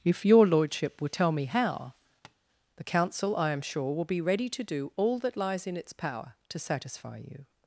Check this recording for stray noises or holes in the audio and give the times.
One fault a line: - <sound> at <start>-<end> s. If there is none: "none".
- tap at 2.2-2.4 s